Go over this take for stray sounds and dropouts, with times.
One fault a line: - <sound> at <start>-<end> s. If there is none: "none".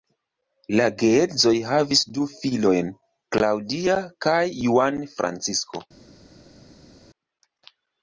none